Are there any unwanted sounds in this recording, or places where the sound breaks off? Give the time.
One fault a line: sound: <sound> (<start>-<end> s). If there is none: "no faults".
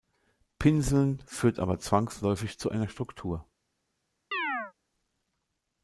sound: chirp (4.3-4.7 s)